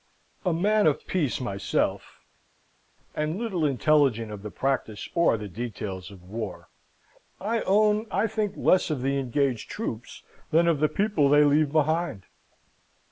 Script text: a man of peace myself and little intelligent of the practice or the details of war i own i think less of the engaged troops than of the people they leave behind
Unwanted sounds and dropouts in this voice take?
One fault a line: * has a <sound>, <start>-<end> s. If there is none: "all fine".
all fine